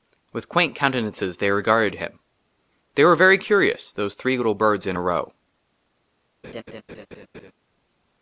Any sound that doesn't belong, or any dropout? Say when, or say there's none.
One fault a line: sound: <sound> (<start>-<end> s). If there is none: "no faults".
sound: laugh (6.4-7.5 s)